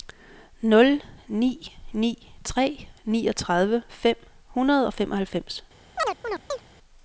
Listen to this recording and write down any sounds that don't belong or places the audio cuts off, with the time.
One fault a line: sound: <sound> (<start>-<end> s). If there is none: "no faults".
sound: chirp (6.0-6.7 s)